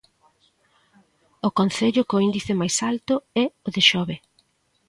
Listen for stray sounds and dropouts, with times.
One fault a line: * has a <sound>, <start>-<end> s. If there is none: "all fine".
all fine